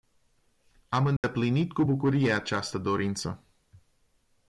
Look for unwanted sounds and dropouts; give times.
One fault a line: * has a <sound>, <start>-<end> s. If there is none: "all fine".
* has a dropout, 1.2-1.2 s